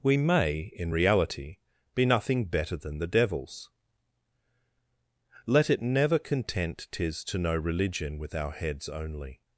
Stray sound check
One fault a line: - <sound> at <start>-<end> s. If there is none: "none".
none